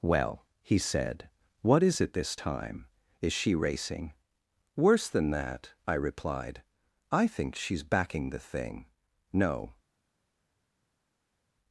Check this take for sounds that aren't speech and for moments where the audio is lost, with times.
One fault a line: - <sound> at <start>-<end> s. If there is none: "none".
none